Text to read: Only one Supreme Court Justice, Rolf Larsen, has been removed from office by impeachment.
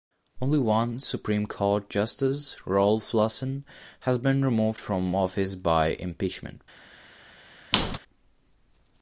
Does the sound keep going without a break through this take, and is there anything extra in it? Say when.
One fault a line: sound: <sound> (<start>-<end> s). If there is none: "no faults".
sound: squeak (7.7-8.0 s)